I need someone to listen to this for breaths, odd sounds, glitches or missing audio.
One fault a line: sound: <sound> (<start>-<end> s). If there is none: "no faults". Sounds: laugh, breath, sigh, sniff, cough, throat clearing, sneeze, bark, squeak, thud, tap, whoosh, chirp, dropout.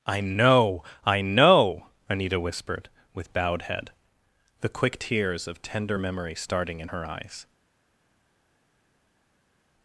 no faults